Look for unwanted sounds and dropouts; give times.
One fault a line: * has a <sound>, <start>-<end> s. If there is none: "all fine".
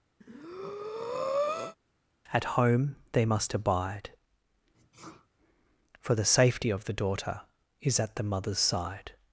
* has a breath, 0.2-1.8 s
* has a sneeze, 4.7-5.3 s